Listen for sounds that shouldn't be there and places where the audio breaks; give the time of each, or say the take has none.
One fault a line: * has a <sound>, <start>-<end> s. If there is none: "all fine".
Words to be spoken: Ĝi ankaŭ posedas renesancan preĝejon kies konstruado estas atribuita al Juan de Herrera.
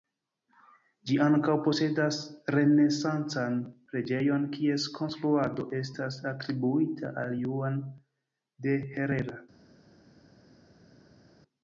all fine